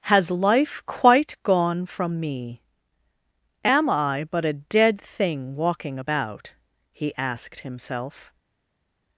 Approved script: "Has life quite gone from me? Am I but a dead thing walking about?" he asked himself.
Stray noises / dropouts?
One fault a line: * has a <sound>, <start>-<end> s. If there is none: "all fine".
all fine